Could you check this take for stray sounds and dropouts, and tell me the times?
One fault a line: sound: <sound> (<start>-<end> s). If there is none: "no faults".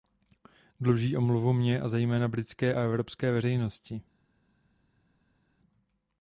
no faults